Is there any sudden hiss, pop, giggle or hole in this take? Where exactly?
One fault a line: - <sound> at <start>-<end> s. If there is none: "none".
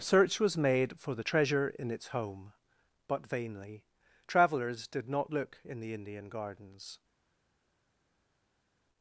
none